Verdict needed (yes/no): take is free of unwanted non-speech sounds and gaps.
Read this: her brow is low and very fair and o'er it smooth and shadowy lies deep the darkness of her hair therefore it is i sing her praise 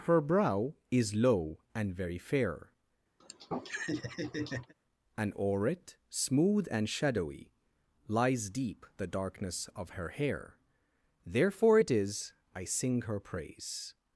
no